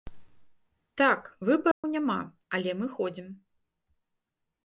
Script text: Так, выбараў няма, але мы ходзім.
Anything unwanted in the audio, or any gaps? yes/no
yes